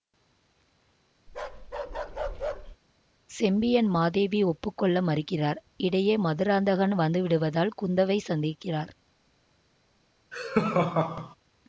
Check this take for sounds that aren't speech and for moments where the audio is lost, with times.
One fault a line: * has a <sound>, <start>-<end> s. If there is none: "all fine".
* has a bark, 1.3-2.8 s
* has a laugh, 10.3-11.4 s